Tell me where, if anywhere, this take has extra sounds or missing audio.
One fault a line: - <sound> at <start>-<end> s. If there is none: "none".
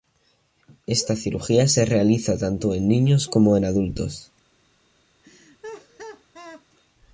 - laugh at 5.2-6.7 s